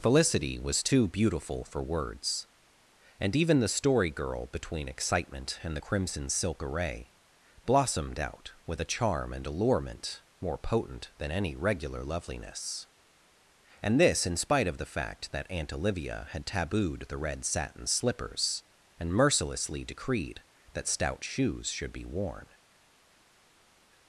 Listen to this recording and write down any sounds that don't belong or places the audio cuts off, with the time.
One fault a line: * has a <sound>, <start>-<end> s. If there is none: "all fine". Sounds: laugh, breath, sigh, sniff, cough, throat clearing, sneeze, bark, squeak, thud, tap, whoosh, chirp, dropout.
all fine